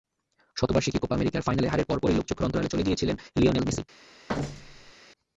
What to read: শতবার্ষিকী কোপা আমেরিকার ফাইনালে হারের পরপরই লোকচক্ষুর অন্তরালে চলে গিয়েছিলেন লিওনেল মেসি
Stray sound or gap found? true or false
true